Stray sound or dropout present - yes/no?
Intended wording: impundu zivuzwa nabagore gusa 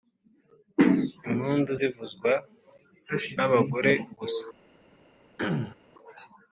yes